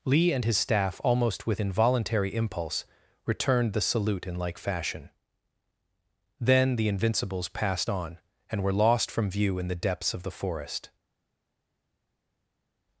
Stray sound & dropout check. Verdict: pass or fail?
pass